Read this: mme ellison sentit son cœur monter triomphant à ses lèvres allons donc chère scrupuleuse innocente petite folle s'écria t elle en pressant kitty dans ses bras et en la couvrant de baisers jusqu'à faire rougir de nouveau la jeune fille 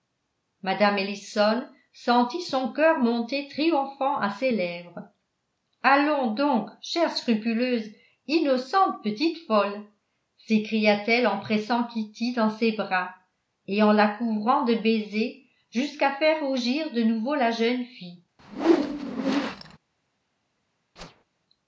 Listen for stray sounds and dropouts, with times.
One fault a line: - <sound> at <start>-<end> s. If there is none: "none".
- whoosh at 18.4-19.8 s
- whoosh at 21.0-21.2 s